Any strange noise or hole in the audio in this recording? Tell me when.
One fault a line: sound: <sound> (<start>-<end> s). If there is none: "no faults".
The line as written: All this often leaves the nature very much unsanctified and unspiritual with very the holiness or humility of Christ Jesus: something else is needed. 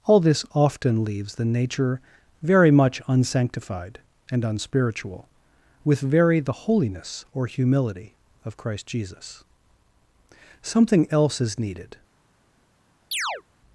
sound: chirp (13.1-13.4 s)